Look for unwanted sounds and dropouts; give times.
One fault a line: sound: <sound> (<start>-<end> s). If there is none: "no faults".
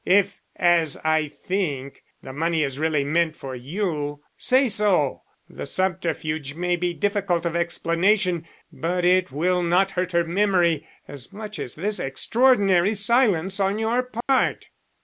sound: dropout (14.2-14.3 s)